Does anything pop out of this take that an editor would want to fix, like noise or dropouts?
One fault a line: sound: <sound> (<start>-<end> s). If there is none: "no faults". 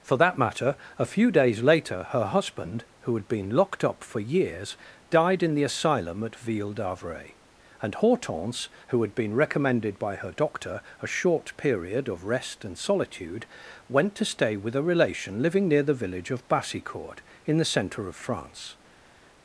no faults